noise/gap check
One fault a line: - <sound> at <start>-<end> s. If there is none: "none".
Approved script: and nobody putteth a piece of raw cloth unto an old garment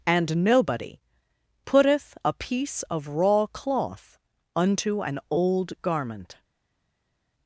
none